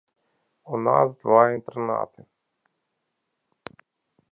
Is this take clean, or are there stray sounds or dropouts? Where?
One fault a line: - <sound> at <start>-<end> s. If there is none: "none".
none